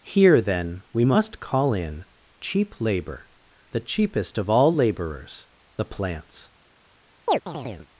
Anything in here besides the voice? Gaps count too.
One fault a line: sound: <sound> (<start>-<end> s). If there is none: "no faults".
sound: chirp (7.3-7.9 s)